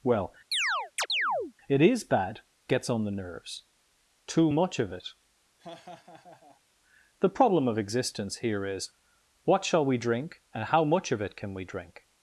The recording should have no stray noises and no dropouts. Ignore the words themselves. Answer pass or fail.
fail